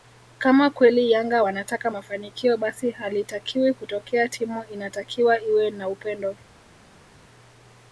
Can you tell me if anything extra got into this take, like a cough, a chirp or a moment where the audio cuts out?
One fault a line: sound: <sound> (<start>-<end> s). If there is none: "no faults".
no faults